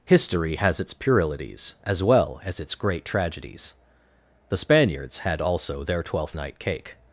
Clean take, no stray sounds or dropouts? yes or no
yes